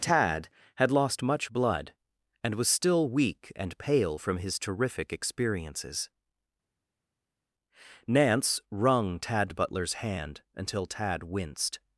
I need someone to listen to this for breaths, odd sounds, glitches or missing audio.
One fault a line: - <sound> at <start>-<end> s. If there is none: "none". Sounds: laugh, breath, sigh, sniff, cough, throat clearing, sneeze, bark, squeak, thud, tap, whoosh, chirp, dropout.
none